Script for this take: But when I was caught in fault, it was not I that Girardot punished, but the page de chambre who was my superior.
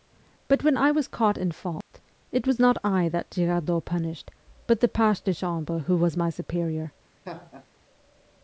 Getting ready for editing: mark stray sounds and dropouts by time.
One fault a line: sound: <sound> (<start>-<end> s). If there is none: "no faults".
sound: dropout (1.8-1.9 s)
sound: laugh (7.2-7.7 s)